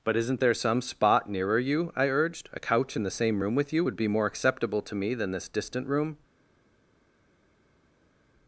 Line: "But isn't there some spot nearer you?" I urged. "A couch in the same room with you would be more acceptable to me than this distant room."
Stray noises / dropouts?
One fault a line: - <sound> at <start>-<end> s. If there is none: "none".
none